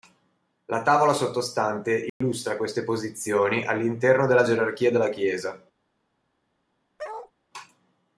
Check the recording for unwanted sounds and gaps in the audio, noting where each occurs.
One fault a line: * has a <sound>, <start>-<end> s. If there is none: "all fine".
* has a dropout, 2.1-2.2 s
* has a bark, 7.0-7.3 s